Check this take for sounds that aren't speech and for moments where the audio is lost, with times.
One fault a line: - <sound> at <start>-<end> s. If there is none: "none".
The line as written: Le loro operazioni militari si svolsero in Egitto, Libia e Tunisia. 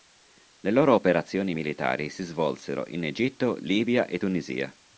none